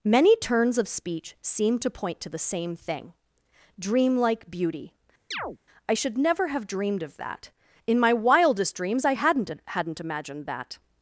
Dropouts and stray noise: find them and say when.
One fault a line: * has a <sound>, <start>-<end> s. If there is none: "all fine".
* has a chirp, 5.3-5.6 s